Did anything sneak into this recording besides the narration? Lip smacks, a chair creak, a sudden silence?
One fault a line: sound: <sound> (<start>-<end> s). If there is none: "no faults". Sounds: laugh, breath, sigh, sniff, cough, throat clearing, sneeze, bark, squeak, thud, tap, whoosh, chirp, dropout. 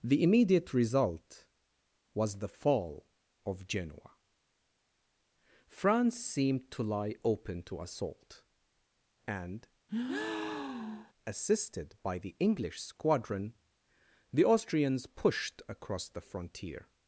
sound: breath (9.9-11.1 s)